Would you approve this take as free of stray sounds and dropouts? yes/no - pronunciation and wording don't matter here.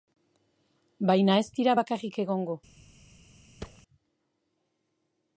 no